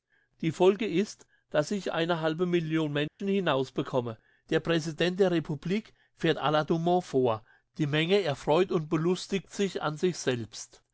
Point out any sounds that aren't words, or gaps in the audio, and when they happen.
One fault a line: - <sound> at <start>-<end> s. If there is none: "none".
- dropout at 3.1-3.2 s